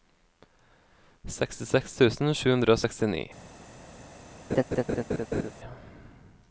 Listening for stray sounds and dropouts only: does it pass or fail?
fail